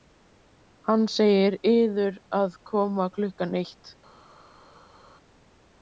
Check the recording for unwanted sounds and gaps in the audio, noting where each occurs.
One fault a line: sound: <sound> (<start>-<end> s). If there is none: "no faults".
no faults